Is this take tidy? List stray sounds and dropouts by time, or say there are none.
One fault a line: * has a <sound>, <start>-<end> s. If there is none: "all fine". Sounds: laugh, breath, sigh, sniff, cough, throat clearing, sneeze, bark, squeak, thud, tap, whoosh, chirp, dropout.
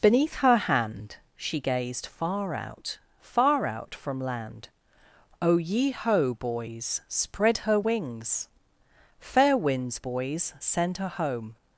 all fine